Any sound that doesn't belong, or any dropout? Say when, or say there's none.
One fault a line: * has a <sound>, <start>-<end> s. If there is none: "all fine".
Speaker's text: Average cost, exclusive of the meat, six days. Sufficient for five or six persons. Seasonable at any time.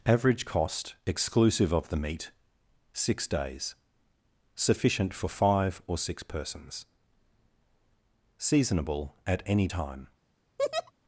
* has a laugh, 10.6-10.9 s